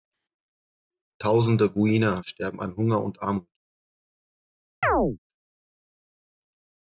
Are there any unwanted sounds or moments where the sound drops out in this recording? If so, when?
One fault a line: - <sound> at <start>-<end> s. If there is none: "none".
- chirp at 4.8-5.2 s